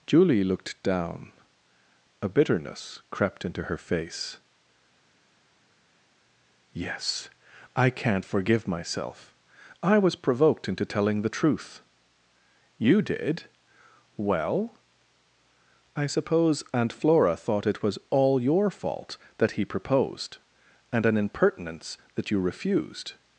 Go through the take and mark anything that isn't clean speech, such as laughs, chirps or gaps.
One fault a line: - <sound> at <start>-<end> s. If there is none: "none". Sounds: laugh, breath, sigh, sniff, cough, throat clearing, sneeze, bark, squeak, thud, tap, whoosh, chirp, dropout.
none